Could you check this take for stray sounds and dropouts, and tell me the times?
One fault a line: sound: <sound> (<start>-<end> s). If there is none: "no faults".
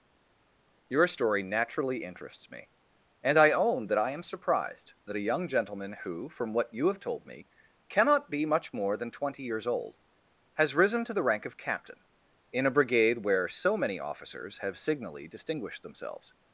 no faults